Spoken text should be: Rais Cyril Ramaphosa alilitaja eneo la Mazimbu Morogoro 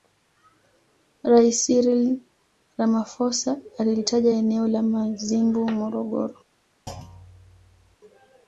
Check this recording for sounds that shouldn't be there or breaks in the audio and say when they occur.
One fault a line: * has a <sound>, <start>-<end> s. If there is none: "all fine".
* has a thud, 6.9-8.0 s